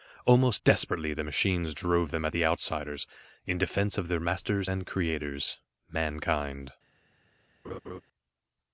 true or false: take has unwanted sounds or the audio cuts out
true